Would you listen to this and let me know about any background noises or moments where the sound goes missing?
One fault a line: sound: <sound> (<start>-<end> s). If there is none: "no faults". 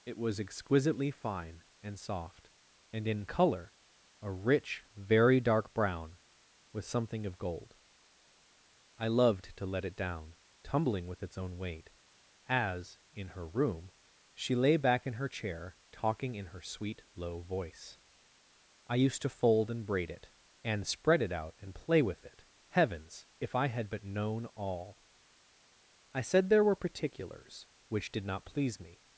no faults